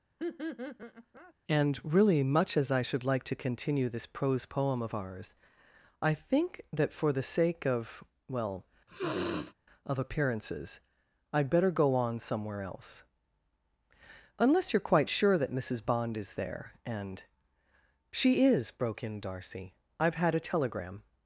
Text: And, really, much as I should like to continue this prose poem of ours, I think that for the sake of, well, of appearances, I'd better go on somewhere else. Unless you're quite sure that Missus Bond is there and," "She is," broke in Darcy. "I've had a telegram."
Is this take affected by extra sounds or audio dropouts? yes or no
yes